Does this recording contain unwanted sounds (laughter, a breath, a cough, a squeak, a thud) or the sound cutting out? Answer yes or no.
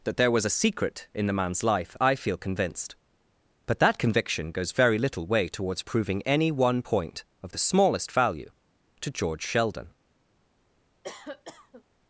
yes